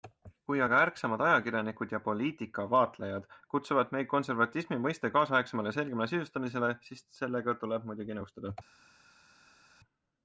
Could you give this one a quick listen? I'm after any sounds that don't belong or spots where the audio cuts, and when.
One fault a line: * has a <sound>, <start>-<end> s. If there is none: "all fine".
all fine